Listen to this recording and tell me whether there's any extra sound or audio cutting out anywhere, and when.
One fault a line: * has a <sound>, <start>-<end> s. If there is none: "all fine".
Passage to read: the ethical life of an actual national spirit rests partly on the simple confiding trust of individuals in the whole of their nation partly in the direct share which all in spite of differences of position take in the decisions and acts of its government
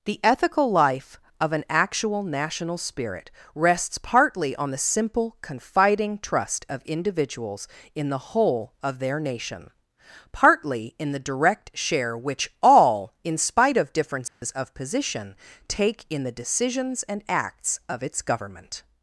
* has a dropout, 14.3-14.4 s